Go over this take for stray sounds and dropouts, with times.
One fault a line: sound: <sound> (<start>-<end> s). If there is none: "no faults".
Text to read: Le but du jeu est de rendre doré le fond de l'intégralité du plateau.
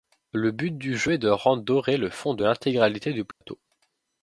sound: dropout (3.3-3.4 s)